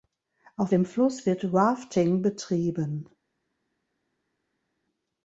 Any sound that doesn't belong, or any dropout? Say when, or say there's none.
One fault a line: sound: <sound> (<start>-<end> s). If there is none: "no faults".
no faults